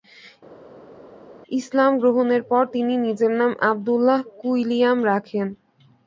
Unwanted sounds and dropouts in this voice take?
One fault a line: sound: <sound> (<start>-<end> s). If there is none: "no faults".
no faults